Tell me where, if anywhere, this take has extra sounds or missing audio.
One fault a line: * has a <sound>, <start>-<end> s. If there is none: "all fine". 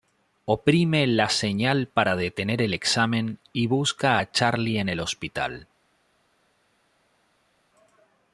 all fine